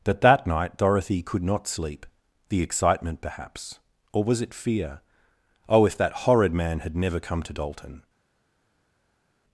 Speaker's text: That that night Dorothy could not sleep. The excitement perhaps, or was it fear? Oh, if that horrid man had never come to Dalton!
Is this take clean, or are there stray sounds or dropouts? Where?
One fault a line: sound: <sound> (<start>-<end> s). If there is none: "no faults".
no faults